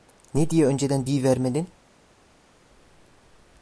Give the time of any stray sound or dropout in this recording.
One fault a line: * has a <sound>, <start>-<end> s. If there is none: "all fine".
all fine